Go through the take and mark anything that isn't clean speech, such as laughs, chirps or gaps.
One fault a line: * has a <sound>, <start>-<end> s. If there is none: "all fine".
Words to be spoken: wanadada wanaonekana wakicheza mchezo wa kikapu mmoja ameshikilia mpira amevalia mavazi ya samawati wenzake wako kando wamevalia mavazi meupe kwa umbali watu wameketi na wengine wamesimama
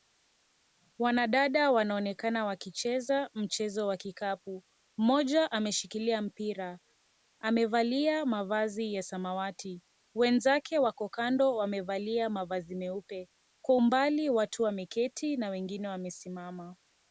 all fine